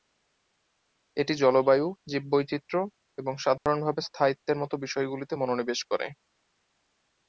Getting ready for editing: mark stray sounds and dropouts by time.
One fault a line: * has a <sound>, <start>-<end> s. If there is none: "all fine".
* has a dropout, 3.6-3.7 s